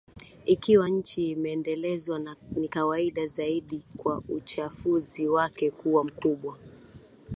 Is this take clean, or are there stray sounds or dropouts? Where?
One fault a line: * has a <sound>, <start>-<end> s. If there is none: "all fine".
all fine